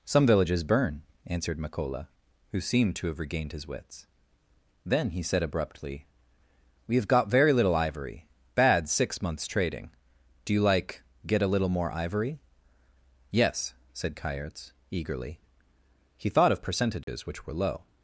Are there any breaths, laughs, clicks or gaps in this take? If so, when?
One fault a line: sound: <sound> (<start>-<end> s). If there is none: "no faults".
sound: dropout (17.0-17.1 s)